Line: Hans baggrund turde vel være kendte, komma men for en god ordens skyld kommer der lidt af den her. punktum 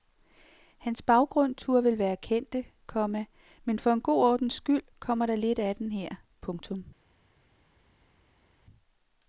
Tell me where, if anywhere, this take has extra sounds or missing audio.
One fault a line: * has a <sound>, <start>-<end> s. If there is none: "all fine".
all fine